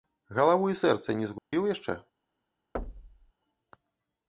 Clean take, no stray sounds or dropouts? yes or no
no